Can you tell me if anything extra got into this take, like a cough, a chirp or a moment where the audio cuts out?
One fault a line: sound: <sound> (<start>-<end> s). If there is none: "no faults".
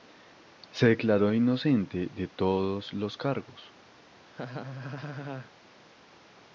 sound: laugh (4.3-5.5 s)